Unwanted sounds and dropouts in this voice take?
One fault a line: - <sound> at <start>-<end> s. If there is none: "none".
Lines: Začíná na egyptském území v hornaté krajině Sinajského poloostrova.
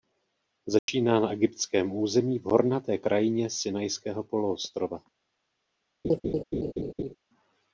- dropout at 0.8-0.9 s
- laugh at 6.0-7.1 s